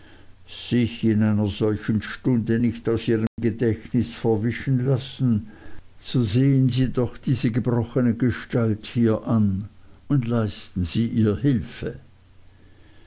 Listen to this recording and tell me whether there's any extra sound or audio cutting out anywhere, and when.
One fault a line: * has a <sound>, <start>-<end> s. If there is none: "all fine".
* has a dropout, 3.3-3.4 s